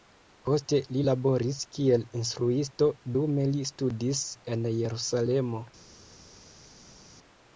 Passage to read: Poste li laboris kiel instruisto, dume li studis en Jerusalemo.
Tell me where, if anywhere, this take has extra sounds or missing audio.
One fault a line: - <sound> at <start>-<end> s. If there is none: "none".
none